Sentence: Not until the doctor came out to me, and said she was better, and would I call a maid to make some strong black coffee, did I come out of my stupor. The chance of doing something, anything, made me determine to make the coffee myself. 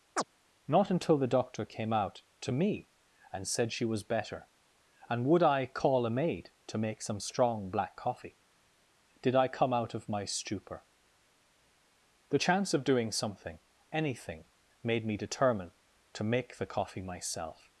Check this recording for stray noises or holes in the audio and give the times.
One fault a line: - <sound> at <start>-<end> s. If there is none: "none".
- chirp at 0.2-0.2 s